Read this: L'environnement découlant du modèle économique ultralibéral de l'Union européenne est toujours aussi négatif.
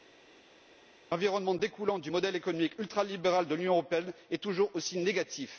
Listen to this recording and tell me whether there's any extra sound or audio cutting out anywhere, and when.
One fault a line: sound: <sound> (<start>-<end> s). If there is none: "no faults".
no faults